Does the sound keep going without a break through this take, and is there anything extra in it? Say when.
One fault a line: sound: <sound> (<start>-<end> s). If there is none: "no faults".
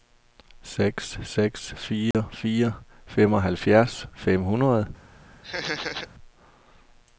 sound: dropout (2.1-2.1 s)
sound: laugh (5.4-6.1 s)